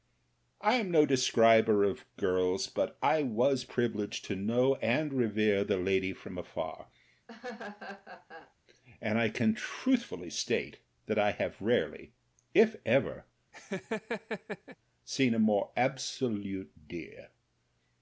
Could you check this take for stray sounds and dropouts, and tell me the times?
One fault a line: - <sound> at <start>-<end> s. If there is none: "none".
- laugh at 7.3-8.5 s
- laugh at 13.5-14.8 s